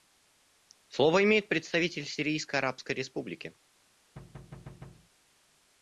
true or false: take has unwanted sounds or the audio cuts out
true